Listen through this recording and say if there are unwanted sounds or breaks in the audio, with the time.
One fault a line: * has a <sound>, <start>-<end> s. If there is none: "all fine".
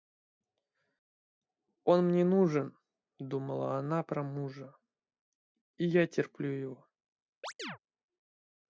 * has a chirp, 7.4-7.8 s